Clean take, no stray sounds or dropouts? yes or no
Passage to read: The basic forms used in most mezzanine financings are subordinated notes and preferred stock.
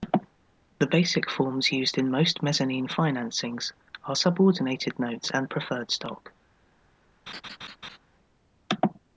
no